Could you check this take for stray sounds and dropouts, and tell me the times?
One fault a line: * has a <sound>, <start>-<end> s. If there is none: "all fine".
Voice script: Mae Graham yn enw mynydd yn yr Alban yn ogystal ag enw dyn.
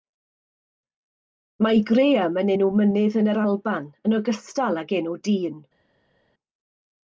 all fine